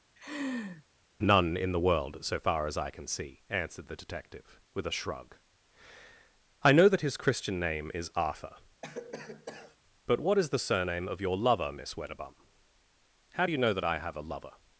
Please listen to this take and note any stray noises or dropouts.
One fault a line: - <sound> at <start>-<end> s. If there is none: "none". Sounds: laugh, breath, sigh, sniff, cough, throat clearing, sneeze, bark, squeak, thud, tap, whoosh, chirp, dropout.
- laugh at 0.2-0.8 s
- cough at 8.8-9.8 s